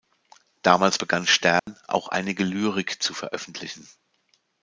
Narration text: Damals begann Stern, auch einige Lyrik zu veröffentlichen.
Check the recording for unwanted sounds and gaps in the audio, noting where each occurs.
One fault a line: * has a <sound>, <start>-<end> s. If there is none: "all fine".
* has a dropout, 1.6-1.7 s